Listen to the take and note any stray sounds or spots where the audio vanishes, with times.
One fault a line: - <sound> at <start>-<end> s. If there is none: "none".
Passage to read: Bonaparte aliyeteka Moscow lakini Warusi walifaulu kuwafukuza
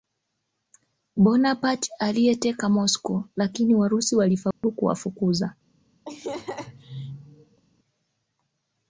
- dropout at 4.5-4.6 s
- laugh at 6.1-7.6 s